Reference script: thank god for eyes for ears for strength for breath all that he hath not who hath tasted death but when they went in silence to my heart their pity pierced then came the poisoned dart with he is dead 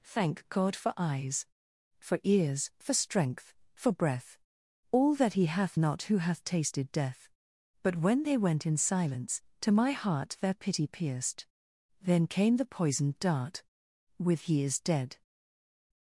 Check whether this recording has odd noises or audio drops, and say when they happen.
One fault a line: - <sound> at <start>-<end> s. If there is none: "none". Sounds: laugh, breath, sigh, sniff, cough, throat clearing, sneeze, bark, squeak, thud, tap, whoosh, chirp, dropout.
none